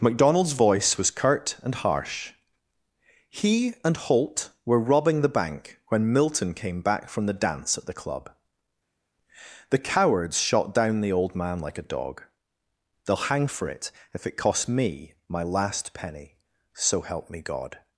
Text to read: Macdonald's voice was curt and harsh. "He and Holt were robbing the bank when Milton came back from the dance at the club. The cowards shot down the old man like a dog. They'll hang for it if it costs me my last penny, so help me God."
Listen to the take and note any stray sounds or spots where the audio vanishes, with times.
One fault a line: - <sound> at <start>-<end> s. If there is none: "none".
none